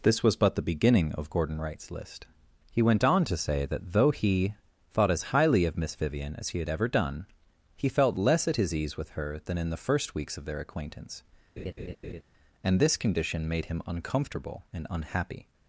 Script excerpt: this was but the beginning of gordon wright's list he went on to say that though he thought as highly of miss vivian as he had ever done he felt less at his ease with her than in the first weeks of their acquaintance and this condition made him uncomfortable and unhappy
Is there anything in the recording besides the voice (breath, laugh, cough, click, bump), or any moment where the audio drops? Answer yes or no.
yes